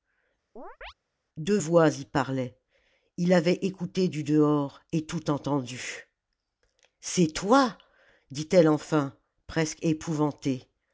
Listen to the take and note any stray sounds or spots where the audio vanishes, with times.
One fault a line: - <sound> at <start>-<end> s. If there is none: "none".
- chirp at 0.6-0.9 s